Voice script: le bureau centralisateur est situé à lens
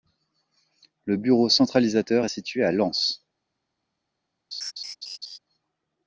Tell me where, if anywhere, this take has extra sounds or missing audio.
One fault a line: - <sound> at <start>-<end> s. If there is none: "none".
- laugh at 4.5-5.4 s